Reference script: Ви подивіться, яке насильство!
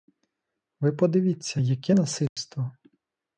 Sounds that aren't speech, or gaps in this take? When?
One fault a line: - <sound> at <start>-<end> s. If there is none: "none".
- dropout at 2.3-2.4 s